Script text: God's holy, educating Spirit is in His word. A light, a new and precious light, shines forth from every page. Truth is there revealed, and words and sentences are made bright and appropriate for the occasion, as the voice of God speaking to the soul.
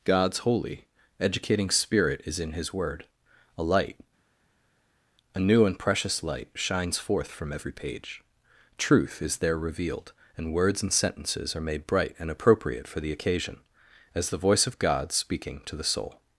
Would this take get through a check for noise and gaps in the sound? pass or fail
pass